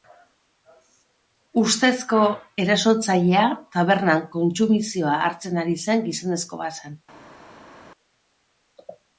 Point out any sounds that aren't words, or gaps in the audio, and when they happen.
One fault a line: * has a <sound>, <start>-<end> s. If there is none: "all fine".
all fine